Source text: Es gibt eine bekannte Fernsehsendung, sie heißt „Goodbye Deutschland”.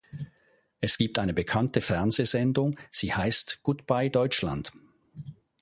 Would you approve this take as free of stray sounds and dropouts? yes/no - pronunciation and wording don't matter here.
yes